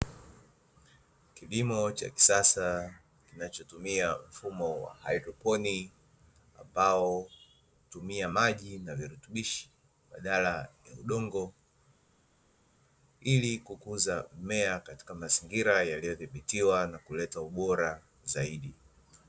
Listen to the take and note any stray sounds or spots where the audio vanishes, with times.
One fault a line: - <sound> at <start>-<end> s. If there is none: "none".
none